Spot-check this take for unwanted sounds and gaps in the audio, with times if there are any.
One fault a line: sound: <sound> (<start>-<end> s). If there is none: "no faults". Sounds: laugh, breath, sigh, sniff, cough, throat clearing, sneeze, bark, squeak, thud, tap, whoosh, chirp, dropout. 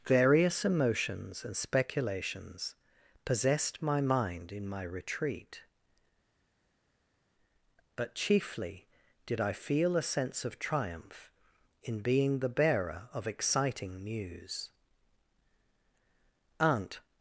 no faults